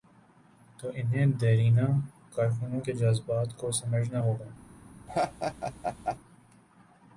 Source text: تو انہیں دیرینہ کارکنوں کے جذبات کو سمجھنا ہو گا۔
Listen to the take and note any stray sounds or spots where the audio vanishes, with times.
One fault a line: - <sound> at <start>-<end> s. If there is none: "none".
- laugh at 5.1-6.2 s